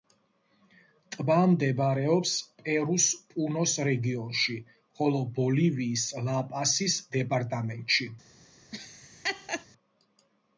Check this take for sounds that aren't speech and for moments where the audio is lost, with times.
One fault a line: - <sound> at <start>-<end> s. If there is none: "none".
- laugh at 8.7-9.7 s